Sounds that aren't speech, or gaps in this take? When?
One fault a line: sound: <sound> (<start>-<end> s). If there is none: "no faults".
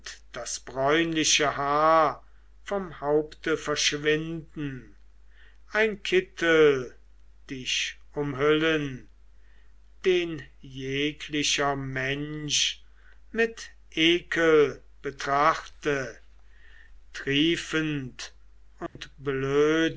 sound: dropout (18.9-19.0 s)